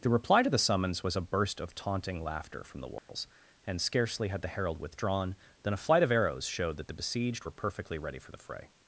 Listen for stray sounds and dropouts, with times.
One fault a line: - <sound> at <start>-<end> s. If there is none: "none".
- dropout at 3.0-3.1 s